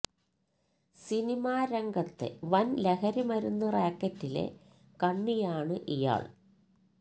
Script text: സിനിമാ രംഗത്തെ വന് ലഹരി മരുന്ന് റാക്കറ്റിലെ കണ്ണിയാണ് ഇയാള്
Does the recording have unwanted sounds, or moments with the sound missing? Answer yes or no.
no